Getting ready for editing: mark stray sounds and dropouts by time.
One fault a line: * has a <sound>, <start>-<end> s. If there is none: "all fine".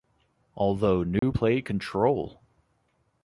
* has a dropout, 1.2-1.2 s